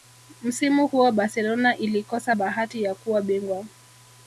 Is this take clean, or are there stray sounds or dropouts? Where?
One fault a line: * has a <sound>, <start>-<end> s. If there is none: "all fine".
all fine